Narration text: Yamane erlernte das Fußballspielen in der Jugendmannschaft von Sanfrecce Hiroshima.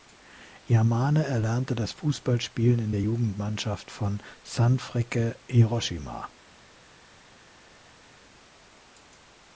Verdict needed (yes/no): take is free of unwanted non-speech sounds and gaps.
yes